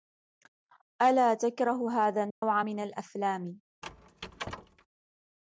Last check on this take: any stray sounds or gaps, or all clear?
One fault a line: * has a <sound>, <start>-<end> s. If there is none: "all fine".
* has a dropout, 2.3-2.4 s
* has a squeak, 3.8-4.9 s